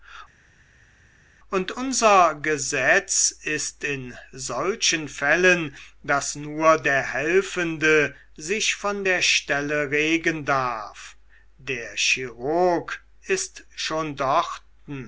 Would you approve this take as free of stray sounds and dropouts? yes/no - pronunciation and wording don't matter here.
yes